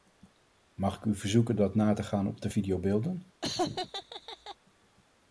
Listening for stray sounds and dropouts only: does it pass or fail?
fail